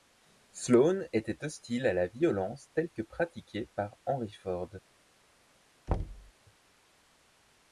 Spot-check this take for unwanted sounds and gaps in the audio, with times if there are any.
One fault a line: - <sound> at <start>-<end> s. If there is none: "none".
- thud at 5.9-6.3 s